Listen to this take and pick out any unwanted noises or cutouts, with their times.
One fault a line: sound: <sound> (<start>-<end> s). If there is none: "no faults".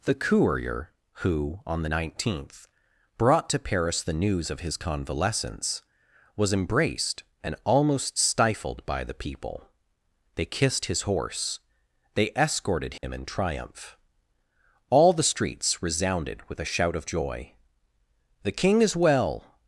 sound: dropout (13.0-13.0 s)